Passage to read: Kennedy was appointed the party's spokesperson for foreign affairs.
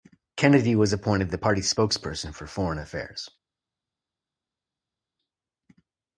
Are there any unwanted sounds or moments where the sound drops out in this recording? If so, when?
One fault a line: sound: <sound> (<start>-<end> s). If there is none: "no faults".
no faults